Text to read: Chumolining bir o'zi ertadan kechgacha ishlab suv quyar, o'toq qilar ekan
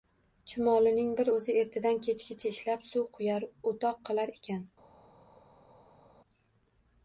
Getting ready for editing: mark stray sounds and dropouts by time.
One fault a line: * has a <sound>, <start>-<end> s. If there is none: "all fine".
all fine